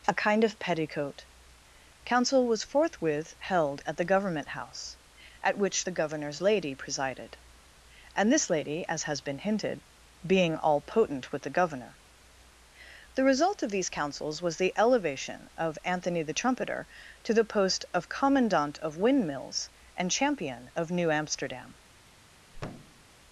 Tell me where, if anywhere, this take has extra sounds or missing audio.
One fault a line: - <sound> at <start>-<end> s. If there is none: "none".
- thud at 22.5-23.0 s